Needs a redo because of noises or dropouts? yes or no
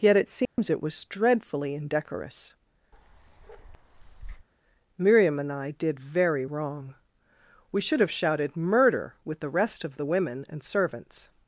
yes